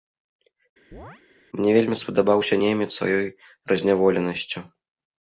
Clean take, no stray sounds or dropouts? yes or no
no